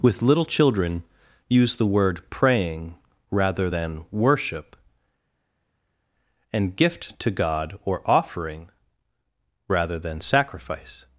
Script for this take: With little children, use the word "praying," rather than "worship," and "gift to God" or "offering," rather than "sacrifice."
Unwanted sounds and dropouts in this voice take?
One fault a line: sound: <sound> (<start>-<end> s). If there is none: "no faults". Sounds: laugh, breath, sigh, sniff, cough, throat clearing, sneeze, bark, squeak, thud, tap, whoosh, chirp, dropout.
no faults